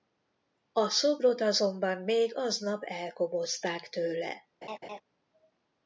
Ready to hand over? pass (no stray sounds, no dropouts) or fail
fail